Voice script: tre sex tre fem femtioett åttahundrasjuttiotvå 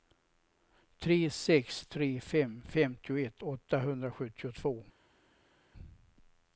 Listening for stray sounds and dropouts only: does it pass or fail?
pass